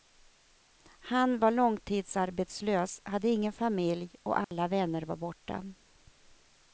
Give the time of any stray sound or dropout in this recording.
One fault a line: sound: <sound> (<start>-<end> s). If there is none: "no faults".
sound: dropout (4.4-4.5 s)